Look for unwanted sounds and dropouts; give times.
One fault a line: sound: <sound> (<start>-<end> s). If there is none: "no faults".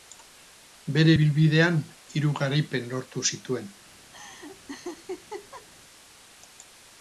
sound: laugh (4.1-5.7 s)